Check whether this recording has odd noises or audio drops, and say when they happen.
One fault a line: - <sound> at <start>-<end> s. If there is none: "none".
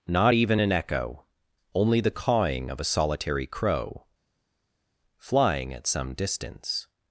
none